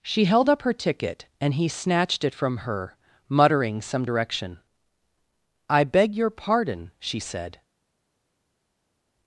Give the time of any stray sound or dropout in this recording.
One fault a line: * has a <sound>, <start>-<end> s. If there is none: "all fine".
all fine